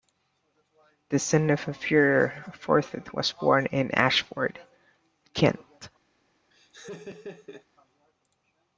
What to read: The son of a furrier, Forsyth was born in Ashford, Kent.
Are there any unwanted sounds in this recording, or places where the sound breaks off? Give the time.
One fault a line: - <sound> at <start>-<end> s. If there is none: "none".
- laugh at 6.5-7.7 s